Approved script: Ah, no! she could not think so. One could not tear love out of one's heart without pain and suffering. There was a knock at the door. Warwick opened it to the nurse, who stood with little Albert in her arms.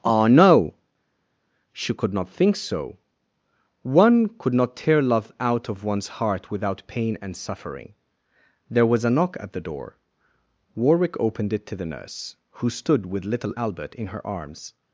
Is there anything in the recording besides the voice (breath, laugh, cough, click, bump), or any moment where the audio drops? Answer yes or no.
no